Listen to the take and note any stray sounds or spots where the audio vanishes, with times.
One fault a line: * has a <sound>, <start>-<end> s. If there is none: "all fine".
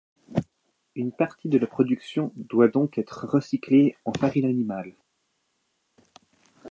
all fine